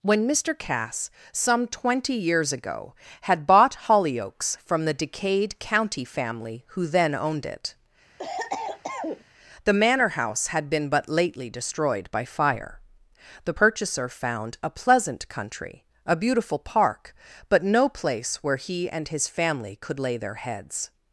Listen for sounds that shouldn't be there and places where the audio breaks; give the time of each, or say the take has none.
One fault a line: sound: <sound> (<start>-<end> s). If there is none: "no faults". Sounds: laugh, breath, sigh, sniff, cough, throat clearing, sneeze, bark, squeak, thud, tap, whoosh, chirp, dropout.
sound: cough (8.2-9.2 s)